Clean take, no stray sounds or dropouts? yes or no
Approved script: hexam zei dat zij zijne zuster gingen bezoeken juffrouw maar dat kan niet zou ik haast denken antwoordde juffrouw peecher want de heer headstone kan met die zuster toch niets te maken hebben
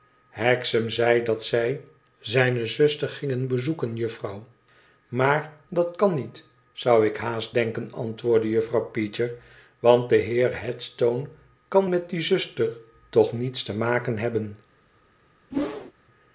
no